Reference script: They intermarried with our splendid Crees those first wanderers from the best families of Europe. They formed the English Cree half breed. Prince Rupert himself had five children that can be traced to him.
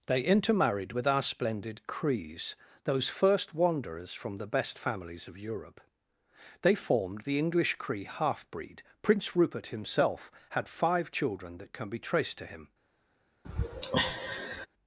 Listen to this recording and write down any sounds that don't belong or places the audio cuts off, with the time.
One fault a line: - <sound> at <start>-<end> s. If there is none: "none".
- sigh at 13.4-14.7 s